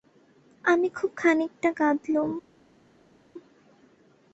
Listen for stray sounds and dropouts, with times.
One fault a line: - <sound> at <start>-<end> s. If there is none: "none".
none